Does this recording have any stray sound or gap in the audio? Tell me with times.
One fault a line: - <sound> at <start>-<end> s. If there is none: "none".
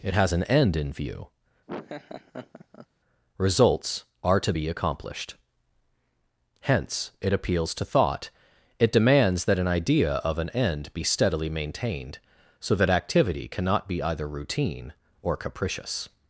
- laugh at 1.7-2.9 s